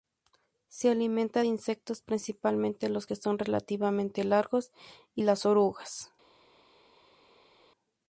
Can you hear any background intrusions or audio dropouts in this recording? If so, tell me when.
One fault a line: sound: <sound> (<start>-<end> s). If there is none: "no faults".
no faults